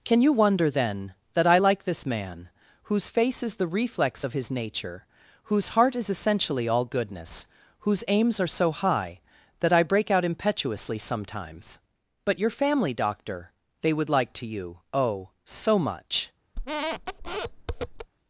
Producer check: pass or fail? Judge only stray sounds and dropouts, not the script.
fail